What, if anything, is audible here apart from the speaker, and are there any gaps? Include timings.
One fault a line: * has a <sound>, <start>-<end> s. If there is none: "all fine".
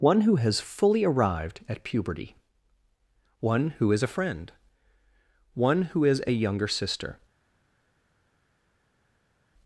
all fine